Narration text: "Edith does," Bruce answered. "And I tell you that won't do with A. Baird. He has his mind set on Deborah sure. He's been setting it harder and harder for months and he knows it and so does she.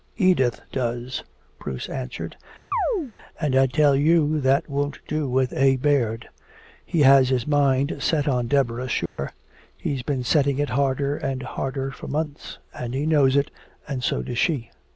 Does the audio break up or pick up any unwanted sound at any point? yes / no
yes